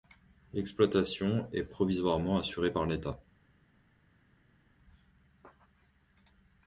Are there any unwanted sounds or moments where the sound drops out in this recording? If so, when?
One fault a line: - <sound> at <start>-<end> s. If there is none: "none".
none